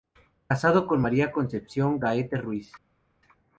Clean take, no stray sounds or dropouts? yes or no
yes